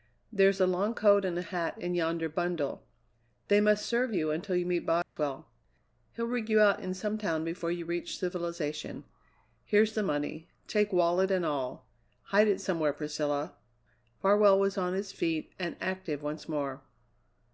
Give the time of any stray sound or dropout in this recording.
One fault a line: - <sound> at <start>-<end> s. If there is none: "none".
- dropout at 5.0-5.2 s